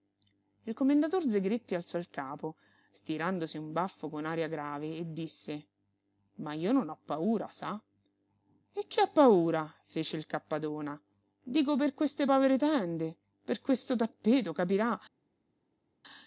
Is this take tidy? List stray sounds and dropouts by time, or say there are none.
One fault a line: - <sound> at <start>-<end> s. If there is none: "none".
none